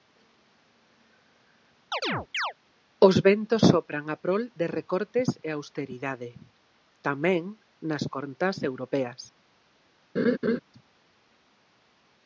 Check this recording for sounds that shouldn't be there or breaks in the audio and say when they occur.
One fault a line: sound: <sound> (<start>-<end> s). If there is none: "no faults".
sound: chirp (1.9-2.5 s)
sound: laugh (10.2-10.6 s)